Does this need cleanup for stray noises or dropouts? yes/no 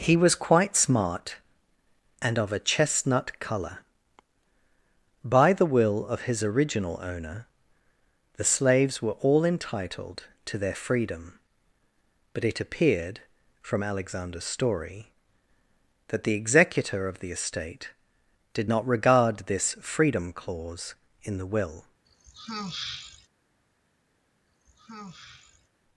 yes